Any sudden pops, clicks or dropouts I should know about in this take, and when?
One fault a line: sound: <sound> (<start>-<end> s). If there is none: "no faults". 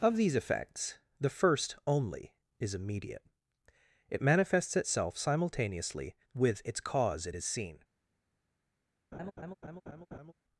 sound: laugh (9.1-10.3 s)